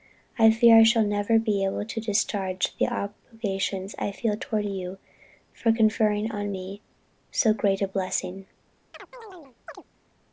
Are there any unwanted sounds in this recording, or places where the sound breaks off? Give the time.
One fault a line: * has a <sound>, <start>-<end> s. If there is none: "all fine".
* has a chirp, 8.9-9.8 s